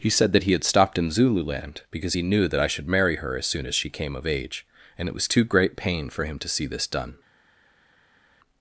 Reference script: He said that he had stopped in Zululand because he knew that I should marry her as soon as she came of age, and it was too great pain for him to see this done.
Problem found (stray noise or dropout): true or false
false